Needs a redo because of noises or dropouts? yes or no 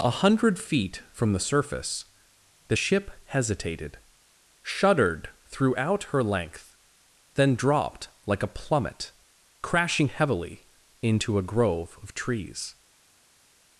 no